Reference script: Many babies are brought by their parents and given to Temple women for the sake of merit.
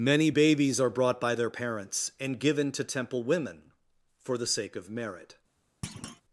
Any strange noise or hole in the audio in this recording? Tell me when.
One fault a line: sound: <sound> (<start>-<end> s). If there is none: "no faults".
sound: thud (5.8-6.2 s)